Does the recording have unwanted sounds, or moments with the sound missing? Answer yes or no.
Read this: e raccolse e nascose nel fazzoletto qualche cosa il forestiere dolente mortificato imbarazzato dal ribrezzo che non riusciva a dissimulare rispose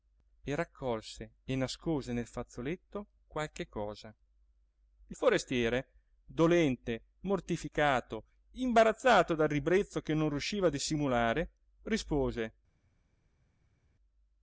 no